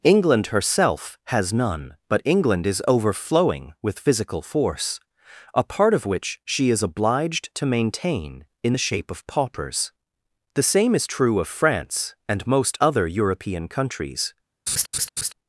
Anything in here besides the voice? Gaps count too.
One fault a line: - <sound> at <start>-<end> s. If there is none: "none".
- laugh at 14.7-15.3 s